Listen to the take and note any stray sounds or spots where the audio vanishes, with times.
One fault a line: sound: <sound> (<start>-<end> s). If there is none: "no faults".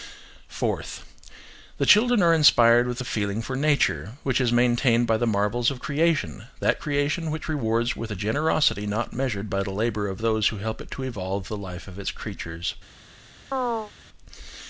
sound: chirp (13.5-13.9 s)